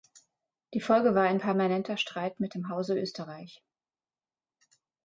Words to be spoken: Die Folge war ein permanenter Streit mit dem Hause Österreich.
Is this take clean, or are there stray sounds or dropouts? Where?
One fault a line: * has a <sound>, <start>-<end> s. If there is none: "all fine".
all fine